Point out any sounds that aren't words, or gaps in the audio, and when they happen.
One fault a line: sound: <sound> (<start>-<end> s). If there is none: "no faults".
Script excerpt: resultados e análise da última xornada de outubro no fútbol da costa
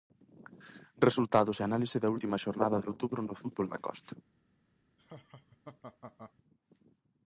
sound: laugh (5.0-6.3 s)